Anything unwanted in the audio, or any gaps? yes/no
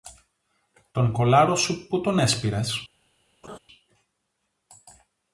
yes